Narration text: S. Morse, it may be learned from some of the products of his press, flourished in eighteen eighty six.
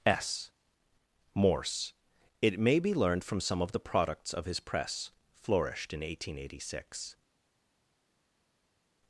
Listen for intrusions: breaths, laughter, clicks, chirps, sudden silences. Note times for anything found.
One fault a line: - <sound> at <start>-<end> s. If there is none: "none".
none